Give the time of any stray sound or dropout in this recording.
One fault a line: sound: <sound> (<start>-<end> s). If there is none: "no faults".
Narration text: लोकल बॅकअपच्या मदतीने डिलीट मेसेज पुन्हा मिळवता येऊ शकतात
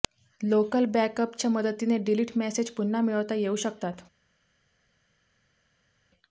no faults